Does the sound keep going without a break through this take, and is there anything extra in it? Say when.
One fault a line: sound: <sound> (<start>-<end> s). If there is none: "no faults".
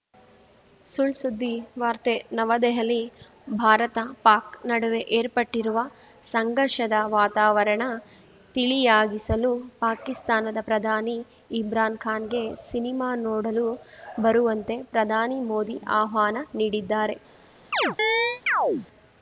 sound: chirp (17.7-18.9 s)